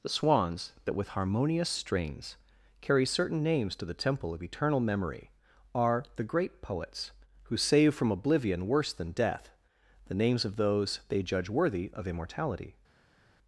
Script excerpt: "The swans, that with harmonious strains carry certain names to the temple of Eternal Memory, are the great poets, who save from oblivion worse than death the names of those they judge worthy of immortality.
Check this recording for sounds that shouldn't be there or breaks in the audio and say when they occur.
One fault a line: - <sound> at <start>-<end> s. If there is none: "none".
none